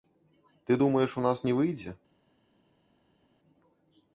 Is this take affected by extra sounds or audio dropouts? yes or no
no